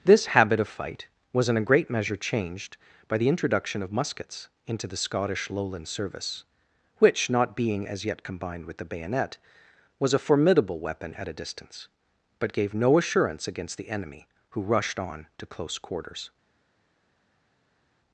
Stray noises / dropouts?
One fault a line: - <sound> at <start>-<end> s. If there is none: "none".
none